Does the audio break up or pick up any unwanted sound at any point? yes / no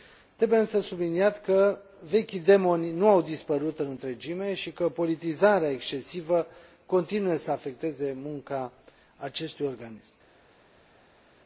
no